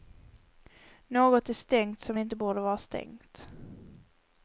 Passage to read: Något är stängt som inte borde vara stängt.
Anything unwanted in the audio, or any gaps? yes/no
no